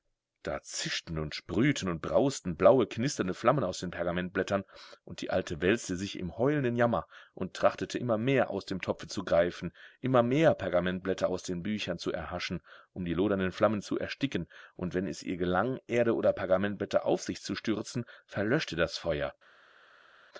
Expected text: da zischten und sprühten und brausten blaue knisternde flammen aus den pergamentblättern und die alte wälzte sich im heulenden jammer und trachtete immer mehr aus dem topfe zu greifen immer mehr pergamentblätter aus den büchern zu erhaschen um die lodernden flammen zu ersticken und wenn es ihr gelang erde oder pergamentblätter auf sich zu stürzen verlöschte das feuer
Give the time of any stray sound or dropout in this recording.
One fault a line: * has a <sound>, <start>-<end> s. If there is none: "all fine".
all fine